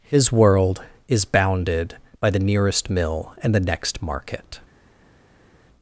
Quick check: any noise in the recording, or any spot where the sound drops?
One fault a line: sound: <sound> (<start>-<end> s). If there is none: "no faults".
no faults